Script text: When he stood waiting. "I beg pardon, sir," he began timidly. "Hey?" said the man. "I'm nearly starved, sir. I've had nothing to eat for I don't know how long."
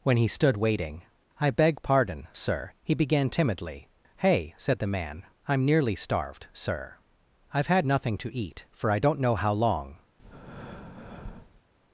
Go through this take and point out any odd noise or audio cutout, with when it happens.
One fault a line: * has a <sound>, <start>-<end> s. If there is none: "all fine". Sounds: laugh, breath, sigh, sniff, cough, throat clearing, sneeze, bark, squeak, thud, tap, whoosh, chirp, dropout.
* has a breath, 10.2-11.6 s